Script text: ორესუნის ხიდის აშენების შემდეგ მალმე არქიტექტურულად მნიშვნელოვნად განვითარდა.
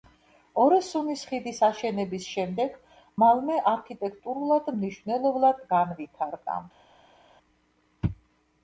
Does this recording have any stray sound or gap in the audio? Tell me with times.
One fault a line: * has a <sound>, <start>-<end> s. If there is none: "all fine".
all fine